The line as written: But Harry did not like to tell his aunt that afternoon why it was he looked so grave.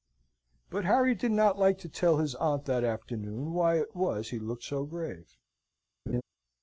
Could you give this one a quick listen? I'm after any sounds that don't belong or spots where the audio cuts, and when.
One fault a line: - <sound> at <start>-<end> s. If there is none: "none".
- laugh at 6.1-6.2 s